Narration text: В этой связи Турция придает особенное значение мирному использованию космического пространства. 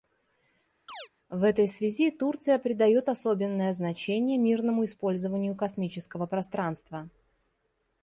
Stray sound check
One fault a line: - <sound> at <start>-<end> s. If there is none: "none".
- chirp at 0.9-1.1 s